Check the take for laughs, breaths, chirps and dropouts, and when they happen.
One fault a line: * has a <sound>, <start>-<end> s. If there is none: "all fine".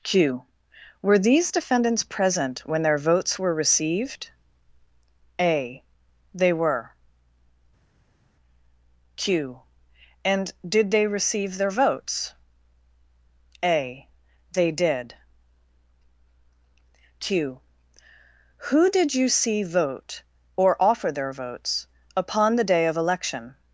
all fine